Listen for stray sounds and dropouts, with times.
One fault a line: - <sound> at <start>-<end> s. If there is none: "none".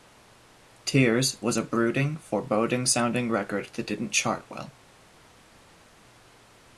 none